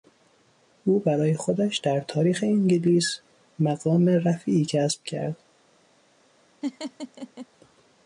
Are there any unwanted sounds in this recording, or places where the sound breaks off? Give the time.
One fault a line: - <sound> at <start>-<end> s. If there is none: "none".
- laugh at 6.6-7.5 s